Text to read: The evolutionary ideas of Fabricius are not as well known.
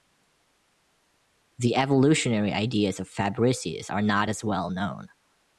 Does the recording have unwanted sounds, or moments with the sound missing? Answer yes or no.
no